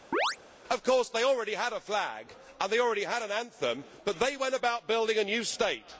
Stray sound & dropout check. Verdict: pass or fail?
fail